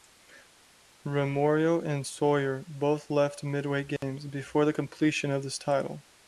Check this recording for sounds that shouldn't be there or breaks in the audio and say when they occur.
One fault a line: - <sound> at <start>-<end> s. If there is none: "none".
- dropout at 4.0-4.0 s